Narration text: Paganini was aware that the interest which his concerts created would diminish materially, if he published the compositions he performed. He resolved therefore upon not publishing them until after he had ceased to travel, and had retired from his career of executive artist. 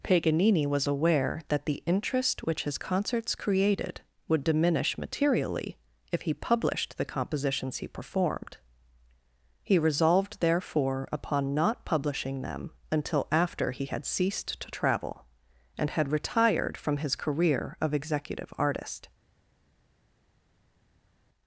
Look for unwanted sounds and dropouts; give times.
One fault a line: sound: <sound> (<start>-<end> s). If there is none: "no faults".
no faults